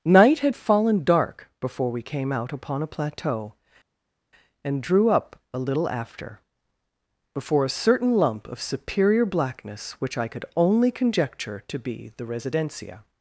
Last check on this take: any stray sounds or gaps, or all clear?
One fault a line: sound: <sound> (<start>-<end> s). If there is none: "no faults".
no faults